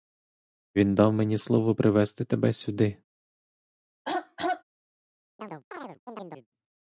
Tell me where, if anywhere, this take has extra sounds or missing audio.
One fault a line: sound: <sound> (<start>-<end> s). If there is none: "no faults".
sound: throat clearing (4.1-4.6 s)
sound: chirp (5.4-6.5 s)